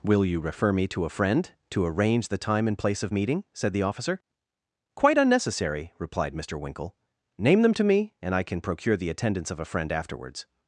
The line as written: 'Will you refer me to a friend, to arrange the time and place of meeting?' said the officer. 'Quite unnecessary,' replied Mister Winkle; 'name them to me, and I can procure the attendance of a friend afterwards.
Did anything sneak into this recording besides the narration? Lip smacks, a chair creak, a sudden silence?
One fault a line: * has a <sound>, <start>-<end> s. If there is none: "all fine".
all fine